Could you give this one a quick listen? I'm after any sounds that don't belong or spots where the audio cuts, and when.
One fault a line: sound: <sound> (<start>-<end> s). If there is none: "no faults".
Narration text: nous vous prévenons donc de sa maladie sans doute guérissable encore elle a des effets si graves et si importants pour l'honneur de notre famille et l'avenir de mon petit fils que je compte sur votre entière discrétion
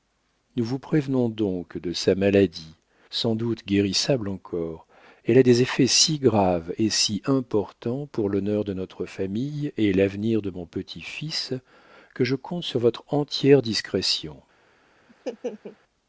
sound: laugh (15.1-15.8 s)